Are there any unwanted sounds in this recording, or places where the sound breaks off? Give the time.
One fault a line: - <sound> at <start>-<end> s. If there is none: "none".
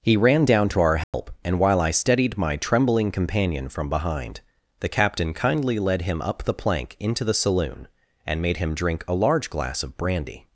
- dropout at 1.0-1.1 s